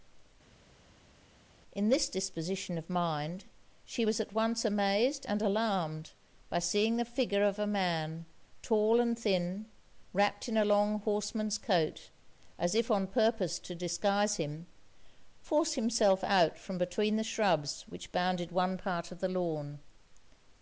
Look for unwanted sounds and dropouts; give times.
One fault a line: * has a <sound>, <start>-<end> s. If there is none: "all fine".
all fine